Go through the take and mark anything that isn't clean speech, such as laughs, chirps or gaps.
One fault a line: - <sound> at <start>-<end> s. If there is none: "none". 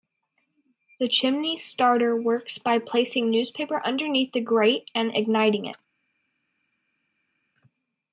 none